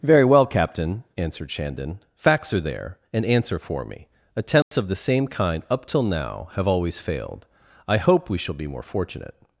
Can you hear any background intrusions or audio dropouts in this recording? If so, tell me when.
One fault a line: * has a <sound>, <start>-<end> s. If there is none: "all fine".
* has a dropout, 4.6-4.7 s